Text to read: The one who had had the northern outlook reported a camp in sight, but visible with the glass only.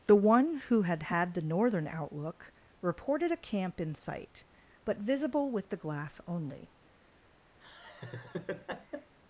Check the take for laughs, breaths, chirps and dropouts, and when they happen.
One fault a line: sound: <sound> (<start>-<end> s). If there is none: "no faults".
sound: laugh (7.6-9.1 s)